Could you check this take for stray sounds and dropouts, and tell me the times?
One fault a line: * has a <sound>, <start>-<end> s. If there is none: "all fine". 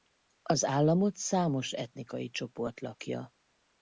all fine